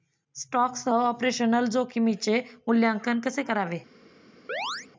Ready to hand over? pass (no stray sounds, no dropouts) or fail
fail